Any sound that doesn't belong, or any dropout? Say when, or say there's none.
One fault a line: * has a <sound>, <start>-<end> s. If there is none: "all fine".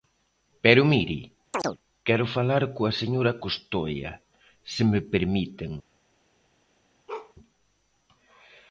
* has a chirp, 1.5-1.8 s
* has a bark, 7.1-7.3 s